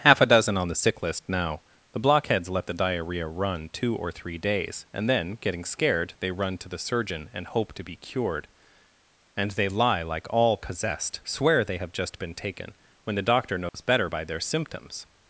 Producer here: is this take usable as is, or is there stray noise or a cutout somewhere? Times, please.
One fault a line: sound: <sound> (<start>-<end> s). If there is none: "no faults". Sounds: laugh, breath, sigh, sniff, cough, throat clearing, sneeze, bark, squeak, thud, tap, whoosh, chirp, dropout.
sound: dropout (13.7-13.7 s)